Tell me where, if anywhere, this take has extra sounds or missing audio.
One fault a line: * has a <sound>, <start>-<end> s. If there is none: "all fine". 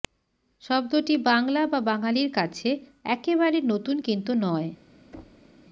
* has a thud, 5.1-5.5 s